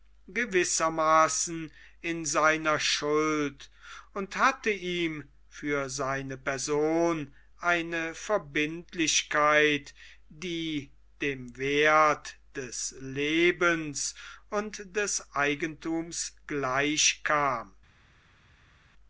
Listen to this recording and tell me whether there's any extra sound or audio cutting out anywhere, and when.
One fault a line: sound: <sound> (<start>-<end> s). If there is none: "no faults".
no faults